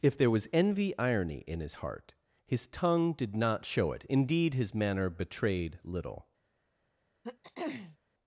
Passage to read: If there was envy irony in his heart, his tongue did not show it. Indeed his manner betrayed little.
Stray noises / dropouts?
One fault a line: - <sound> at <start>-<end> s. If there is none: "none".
- throat clearing at 7.2-8.0 s